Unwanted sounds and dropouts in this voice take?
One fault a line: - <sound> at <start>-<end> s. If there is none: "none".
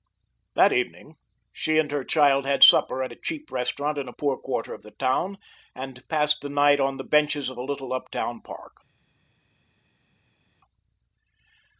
none